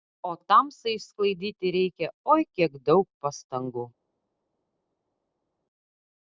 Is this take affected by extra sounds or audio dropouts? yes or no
no